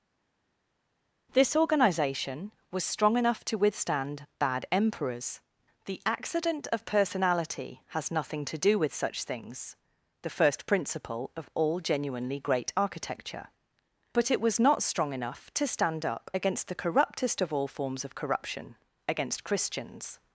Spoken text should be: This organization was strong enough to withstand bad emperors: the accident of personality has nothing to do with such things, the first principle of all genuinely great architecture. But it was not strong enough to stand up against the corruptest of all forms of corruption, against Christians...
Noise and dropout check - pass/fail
pass